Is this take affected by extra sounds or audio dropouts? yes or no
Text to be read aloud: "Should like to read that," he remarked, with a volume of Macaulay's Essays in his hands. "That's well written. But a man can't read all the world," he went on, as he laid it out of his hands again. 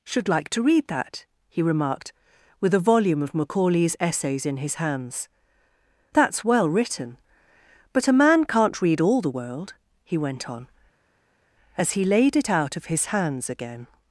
no